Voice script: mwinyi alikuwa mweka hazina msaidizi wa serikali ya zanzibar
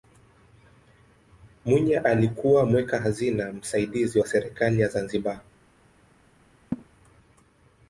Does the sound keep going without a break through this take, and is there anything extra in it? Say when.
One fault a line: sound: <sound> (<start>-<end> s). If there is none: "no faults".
sound: laugh (6.7-6.9 s)